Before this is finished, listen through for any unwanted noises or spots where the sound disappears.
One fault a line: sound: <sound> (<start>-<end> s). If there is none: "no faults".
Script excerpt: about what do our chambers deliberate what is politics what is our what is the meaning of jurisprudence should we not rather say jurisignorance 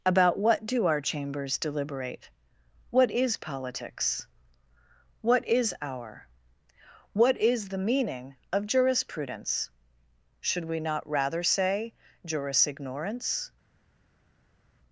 no faults